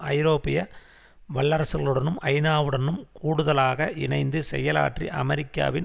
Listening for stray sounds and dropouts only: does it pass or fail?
pass